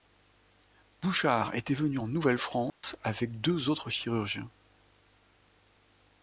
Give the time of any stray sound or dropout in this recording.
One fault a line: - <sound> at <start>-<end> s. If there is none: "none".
- dropout at 2.7-2.8 s